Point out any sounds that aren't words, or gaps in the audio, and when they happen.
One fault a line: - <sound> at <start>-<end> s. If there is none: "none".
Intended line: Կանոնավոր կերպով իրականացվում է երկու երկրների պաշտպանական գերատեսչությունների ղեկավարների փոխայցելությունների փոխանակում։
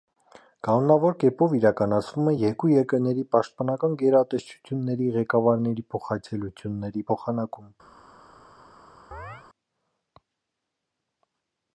- chirp at 9.1-9.4 s